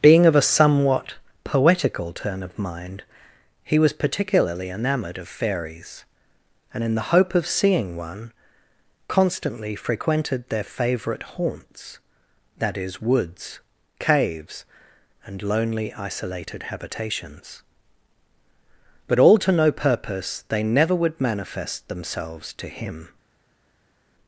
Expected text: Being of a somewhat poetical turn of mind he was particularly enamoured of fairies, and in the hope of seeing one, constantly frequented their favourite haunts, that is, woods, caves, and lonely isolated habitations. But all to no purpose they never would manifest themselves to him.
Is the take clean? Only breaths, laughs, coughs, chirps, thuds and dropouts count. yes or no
yes